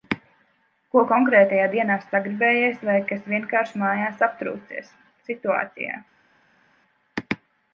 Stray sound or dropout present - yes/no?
no